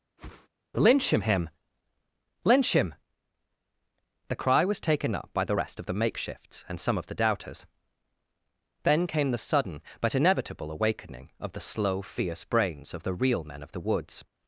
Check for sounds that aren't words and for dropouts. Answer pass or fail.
fail